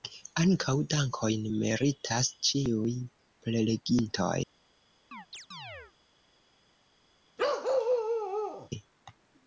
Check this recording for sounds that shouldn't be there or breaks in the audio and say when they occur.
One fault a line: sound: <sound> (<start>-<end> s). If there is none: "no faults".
sound: chirp (5.1-5.9 s)
sound: bark (7.4-8.7 s)